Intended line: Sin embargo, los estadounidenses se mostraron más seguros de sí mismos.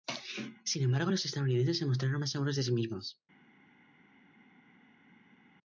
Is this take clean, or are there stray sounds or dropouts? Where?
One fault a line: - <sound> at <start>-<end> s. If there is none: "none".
none